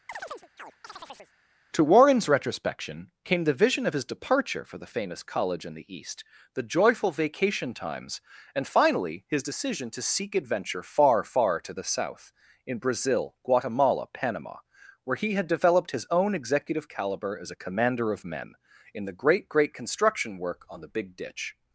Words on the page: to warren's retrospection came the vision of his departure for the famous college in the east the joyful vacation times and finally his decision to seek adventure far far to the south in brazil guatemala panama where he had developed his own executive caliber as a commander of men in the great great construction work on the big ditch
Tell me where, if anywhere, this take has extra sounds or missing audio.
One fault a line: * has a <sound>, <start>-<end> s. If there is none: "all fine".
* has a chirp, 0.1-1.3 s